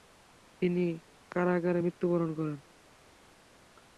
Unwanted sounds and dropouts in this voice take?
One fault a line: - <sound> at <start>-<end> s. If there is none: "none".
none